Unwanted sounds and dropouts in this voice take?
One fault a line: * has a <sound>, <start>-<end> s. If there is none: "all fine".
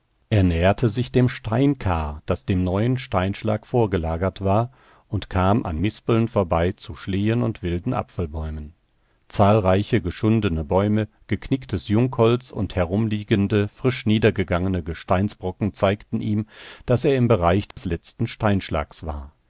* has a dropout, 17.7-17.8 s